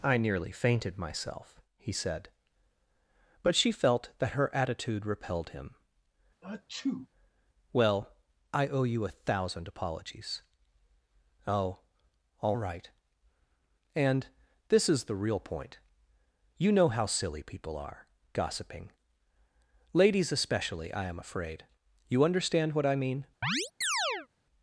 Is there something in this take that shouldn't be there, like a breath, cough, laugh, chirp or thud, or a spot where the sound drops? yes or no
yes